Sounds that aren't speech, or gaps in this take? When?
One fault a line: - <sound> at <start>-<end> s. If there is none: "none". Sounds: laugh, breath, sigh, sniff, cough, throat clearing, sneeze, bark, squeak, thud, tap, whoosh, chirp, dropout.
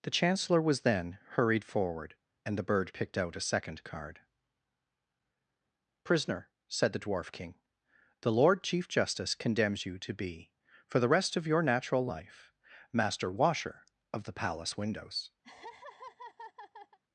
- laugh at 15.4-17.0 s